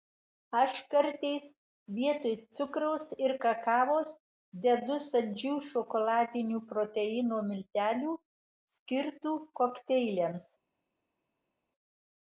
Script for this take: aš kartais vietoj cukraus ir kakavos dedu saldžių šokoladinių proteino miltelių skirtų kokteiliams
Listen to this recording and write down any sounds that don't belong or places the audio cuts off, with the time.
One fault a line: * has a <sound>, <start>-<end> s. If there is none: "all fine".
all fine